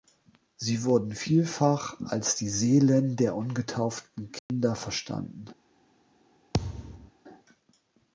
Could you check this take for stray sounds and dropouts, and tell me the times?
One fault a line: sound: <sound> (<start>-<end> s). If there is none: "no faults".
sound: dropout (4.4-4.5 s)
sound: thud (6.5-7.1 s)